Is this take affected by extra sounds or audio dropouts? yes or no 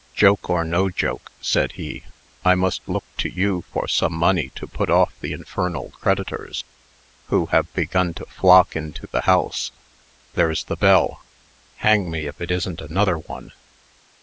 no